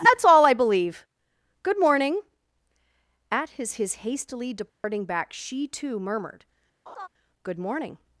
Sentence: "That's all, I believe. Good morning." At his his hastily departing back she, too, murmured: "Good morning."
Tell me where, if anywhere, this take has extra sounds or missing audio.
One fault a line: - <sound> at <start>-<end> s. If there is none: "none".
- dropout at 4.7-4.8 s
- laugh at 6.9-7.1 s